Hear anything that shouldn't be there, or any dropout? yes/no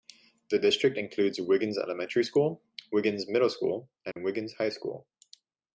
yes